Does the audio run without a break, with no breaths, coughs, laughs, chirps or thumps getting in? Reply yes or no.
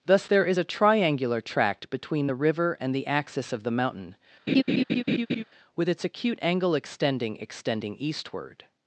no